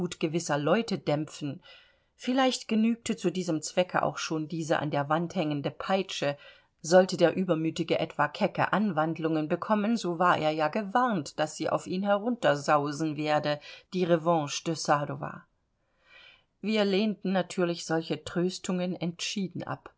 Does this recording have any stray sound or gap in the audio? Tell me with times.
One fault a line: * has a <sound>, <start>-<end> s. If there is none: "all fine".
all fine